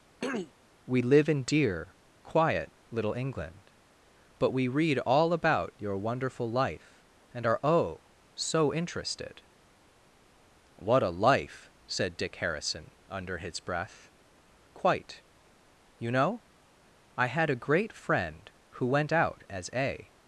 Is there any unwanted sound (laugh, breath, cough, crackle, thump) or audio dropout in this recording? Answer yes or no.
yes